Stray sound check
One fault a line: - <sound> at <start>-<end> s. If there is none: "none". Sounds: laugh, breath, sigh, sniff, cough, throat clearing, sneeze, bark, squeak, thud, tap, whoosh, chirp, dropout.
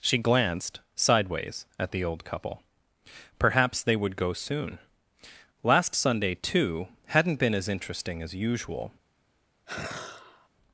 - sigh at 9.7-10.5 s